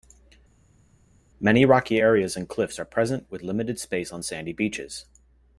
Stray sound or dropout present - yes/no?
no